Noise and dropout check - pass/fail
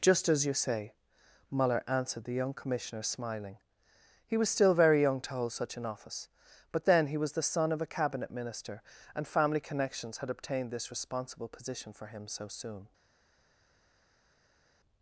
pass